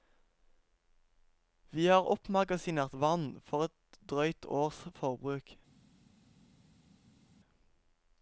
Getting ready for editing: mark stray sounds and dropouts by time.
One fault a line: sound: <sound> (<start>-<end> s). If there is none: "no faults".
no faults